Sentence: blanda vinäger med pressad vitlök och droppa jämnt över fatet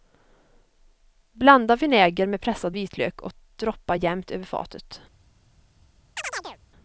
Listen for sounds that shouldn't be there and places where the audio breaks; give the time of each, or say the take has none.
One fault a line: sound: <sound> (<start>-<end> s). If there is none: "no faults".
sound: chirp (6.2-6.6 s)